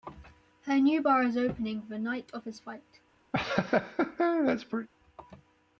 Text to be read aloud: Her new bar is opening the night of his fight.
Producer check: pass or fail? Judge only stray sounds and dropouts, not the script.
fail